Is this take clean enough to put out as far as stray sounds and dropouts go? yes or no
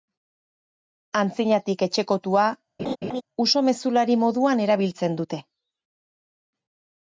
no